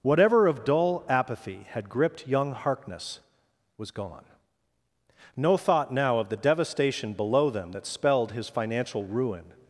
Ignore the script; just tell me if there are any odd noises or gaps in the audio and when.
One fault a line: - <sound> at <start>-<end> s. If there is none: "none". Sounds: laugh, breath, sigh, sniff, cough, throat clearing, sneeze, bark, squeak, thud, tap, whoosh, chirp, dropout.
none